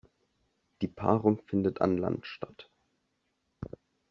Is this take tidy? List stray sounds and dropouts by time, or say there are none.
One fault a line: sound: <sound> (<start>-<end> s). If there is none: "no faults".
no faults